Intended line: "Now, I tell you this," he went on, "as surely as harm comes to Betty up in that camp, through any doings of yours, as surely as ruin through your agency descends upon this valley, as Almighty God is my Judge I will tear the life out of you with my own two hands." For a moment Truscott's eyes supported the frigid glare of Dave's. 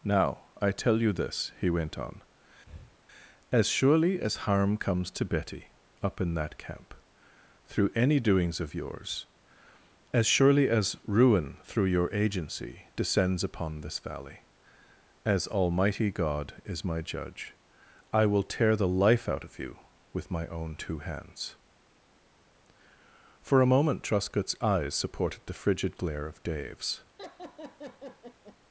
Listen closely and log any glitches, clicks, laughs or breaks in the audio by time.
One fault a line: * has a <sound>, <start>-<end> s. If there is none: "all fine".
* has a breath, 2.7-3.0 s
* has a laugh, 27.2-28.6 s